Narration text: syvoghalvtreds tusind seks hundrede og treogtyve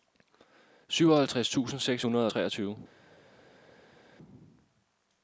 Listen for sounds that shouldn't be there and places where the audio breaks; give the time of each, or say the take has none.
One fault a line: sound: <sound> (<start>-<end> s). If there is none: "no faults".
no faults